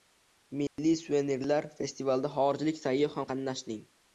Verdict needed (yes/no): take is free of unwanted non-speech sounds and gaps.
no